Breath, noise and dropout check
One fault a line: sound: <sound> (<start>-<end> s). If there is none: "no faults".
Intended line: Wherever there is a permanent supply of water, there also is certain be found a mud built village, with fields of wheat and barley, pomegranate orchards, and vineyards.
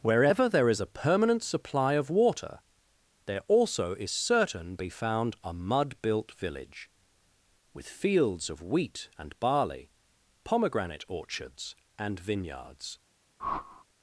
sound: whoosh (13.4-13.8 s)